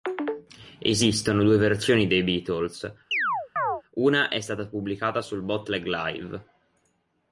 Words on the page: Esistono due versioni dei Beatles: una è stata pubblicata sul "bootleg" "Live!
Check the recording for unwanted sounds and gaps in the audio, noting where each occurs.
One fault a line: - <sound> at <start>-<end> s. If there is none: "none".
- chirp at 3.1-3.8 s